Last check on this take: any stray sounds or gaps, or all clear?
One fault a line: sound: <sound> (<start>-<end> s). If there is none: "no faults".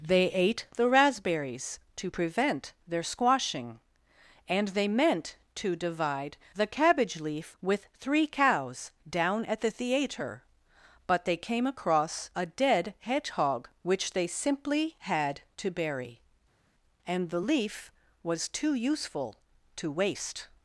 no faults